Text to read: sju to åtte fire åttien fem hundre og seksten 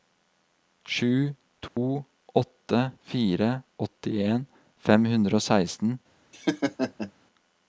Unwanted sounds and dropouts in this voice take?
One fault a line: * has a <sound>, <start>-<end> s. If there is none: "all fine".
* has a dropout, 1.7-1.8 s
* has a laugh, 6.3-7.1 s